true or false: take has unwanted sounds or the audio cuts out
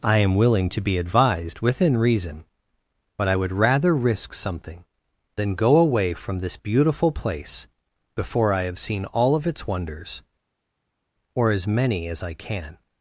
false